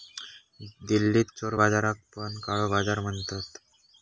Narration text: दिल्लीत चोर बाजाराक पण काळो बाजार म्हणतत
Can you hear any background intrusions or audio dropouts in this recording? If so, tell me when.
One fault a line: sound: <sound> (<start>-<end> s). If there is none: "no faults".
no faults